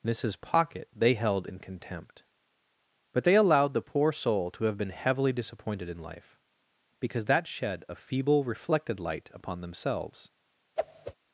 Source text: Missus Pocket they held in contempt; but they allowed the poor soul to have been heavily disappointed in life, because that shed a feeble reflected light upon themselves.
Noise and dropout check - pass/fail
fail